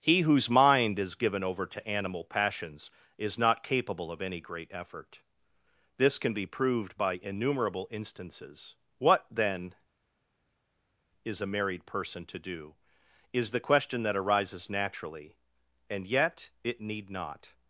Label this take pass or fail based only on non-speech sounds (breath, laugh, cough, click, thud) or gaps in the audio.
pass